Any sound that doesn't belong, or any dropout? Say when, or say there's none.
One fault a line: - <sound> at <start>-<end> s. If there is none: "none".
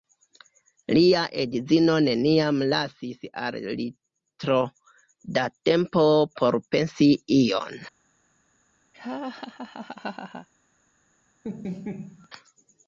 - laugh at 8.9-10.5 s
- laugh at 11.4-12.3 s